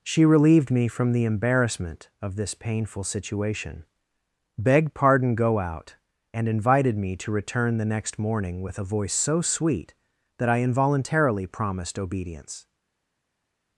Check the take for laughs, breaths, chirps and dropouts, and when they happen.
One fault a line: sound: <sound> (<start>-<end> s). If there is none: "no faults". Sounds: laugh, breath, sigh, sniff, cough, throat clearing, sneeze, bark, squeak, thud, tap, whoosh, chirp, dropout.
no faults